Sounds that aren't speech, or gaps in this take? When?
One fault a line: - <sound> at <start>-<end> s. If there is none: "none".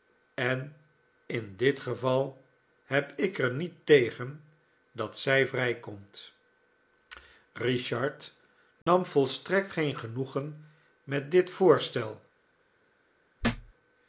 - dropout at 8.8-8.9 s
- thud at 13.4-13.7 s